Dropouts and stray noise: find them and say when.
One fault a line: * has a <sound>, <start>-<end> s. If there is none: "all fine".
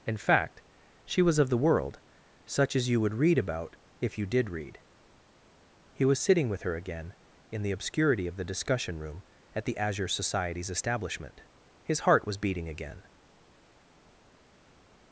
all fine